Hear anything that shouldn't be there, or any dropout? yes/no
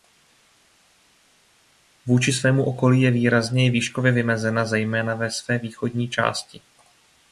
no